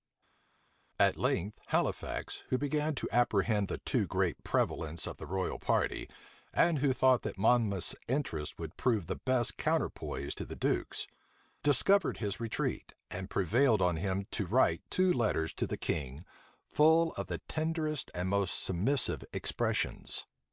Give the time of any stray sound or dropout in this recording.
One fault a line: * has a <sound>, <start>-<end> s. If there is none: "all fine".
all fine